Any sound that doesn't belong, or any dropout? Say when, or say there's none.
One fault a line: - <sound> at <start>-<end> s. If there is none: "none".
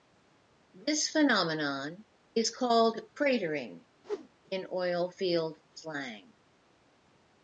- whoosh at 4.0-4.3 s